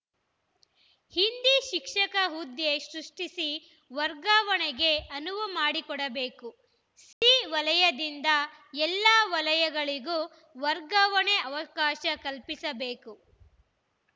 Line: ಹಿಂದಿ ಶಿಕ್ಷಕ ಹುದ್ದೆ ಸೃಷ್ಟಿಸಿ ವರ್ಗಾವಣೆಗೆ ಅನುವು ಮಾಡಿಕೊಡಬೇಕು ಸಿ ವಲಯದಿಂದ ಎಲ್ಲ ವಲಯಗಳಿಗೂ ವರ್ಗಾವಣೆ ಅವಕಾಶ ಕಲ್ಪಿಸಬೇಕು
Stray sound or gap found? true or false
true